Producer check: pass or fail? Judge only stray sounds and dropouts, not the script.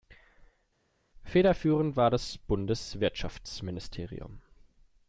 pass